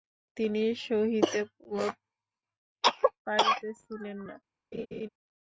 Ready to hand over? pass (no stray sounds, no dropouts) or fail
fail